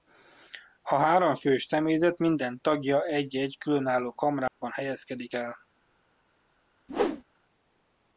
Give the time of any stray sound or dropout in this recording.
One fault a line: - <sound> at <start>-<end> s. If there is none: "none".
- dropout at 4.5-4.6 s
- whoosh at 6.9-7.2 s